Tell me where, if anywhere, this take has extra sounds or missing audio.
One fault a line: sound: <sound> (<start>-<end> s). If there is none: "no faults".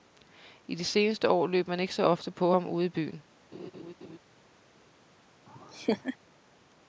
sound: laugh (3.5-4.2 s)
sound: laugh (5.5-6.2 s)